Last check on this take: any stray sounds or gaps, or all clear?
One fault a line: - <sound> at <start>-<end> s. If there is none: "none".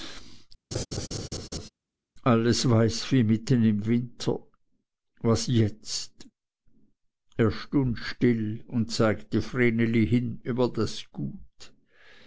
- laugh at 0.7-1.7 s